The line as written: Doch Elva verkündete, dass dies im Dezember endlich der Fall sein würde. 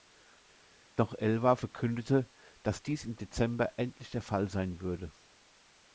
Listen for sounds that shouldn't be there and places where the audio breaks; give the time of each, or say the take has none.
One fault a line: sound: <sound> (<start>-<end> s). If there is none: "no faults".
no faults